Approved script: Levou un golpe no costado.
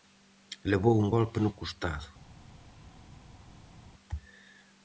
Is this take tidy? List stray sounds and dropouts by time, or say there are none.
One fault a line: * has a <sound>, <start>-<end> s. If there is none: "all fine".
all fine